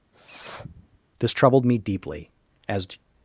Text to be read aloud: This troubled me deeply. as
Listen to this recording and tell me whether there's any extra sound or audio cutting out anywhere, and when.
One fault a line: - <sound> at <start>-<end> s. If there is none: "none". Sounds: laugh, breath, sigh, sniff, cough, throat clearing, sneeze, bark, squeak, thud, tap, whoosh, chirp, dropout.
- sniff at 0.1-1.0 s